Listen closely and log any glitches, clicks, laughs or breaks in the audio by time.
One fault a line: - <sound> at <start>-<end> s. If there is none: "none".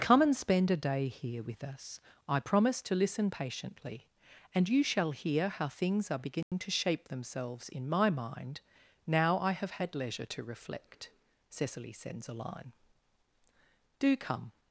- dropout at 6.4-6.5 s